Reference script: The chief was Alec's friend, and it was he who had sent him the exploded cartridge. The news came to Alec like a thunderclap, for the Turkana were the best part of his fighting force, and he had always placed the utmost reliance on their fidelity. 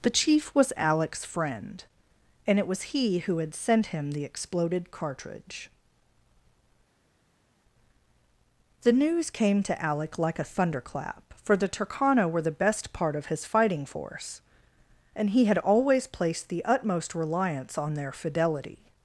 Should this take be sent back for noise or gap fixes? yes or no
no